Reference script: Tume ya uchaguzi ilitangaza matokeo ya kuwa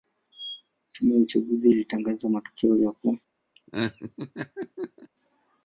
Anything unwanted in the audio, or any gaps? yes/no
yes